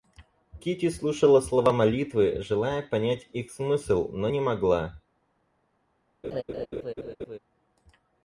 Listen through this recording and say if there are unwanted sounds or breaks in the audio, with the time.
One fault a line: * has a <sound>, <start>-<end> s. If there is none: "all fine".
* has a laugh, 6.2-7.4 s